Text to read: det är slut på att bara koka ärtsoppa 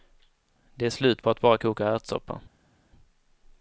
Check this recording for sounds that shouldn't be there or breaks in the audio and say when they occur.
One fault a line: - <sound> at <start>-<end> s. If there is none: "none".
none